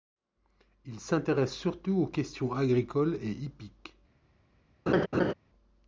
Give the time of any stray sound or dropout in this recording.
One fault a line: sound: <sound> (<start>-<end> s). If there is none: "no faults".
sound: laugh (4.9-5.3 s)